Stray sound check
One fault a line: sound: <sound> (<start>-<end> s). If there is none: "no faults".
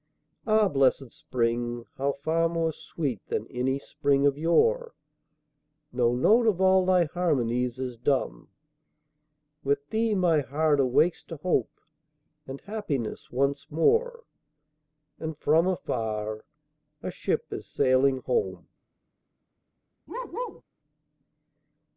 sound: bark (20.1-20.6 s)